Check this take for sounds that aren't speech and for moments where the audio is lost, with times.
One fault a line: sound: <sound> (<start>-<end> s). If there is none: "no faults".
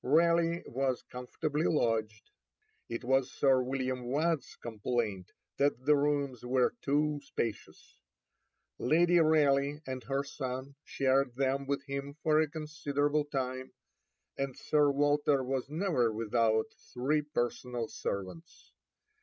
no faults